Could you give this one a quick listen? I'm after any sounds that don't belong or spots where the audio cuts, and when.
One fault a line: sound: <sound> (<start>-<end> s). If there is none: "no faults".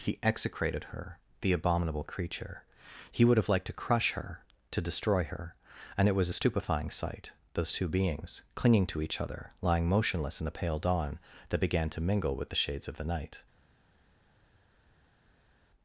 no faults